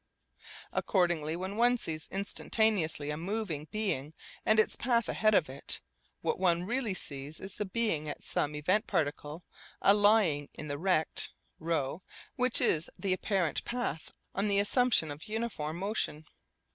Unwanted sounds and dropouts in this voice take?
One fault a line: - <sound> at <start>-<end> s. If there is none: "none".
none